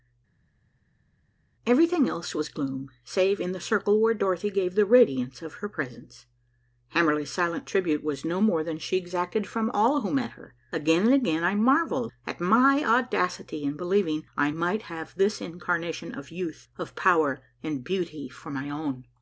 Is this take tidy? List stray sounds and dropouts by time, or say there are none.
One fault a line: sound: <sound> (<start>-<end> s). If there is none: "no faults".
no faults